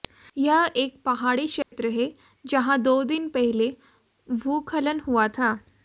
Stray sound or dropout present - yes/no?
yes